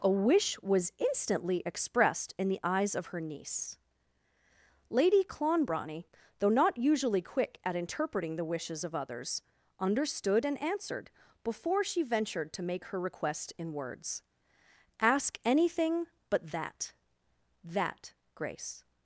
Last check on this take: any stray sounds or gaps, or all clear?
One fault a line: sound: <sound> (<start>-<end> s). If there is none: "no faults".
no faults